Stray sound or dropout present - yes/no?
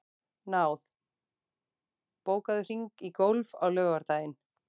no